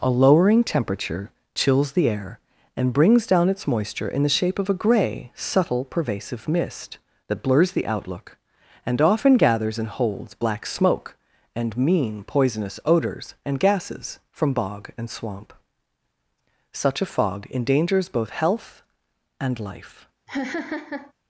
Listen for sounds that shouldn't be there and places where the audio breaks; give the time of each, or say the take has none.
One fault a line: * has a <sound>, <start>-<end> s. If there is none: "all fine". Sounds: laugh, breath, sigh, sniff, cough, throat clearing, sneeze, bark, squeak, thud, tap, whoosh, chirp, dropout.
* has a laugh, 20.3-21.1 s